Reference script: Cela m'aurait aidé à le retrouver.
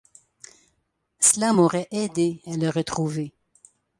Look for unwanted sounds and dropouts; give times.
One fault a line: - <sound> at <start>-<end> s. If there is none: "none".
none